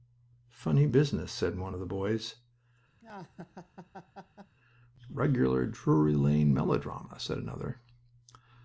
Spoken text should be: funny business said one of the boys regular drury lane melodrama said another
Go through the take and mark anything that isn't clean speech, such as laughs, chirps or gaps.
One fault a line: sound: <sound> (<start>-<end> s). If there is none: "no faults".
sound: laugh (3.0-4.6 s)